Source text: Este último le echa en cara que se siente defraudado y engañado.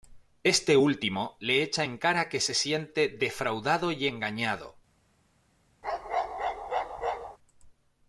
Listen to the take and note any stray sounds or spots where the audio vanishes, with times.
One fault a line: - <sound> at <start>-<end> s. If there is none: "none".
- bark at 5.8-7.4 s